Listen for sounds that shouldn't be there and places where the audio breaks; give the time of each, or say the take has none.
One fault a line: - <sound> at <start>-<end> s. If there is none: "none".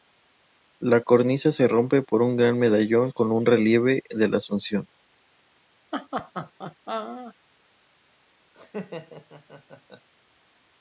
- laugh at 5.9-7.3 s
- laugh at 8.5-10.1 s